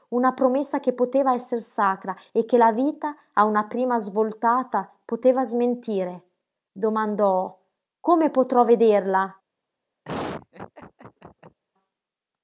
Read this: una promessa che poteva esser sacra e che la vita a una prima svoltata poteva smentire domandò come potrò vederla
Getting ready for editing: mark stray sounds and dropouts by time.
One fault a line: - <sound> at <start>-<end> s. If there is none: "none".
- laugh at 10.0-11.6 s